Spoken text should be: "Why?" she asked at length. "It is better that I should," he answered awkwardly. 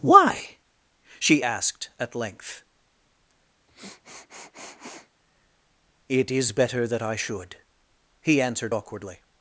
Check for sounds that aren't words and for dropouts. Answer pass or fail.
fail